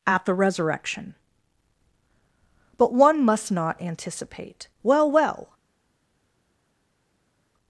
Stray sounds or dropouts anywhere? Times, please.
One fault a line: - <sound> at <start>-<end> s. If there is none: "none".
none